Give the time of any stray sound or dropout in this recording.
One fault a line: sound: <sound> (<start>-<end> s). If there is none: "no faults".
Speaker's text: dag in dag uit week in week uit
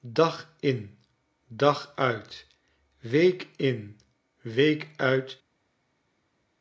no faults